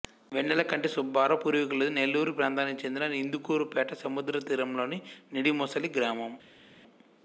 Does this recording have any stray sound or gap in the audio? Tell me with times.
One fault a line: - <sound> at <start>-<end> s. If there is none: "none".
none